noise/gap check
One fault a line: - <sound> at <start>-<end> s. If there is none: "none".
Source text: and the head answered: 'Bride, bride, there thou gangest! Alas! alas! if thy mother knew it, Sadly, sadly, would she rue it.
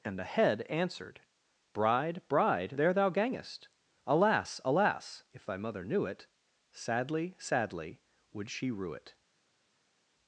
none